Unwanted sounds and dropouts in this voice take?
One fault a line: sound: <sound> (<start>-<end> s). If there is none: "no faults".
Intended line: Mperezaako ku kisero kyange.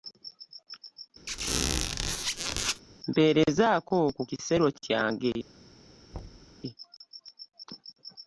sound: squeak (1.3-2.8 s)
sound: thud (6.1-6.6 s)